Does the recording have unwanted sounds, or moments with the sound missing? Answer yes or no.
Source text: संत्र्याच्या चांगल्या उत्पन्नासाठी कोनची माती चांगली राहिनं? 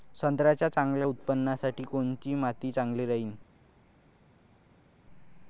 no